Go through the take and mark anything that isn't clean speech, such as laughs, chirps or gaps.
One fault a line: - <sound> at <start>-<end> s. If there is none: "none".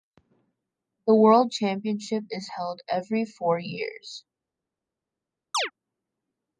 - chirp at 5.5-5.7 s